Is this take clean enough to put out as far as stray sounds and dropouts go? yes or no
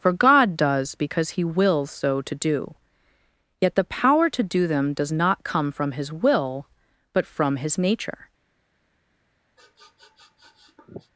no